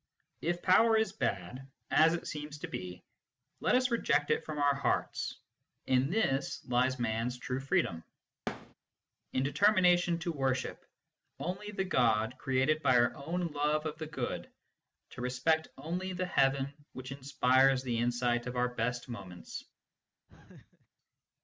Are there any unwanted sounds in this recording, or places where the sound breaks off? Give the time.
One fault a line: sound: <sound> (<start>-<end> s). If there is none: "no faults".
sound: thud (8.5-8.7 s)
sound: laugh (20.3-20.9 s)